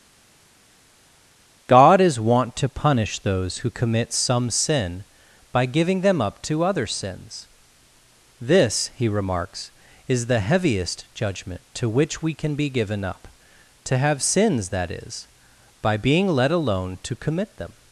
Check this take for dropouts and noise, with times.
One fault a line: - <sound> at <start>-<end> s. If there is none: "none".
none